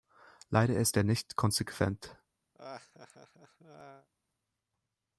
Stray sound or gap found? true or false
true